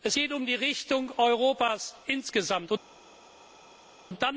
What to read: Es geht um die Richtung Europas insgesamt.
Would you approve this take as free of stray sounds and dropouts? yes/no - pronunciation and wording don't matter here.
yes